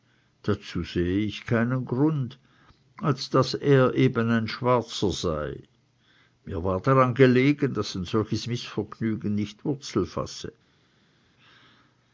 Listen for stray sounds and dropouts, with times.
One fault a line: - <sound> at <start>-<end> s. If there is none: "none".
none